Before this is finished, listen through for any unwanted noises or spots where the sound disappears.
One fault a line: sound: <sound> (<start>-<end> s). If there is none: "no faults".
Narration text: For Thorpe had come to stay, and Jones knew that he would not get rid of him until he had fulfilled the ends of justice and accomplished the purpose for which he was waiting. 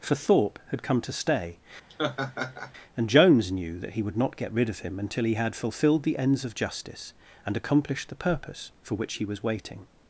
sound: laugh (1.9-2.7 s)